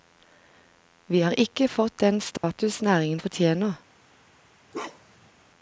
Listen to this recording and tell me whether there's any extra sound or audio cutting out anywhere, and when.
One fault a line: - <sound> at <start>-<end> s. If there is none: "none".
- dropout at 2.4-2.4 s
- bark at 4.7-5.3 s